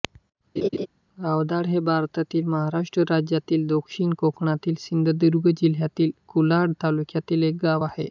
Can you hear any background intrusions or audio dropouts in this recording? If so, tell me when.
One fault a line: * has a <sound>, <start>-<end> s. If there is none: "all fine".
* has a laugh, 0.6-0.9 s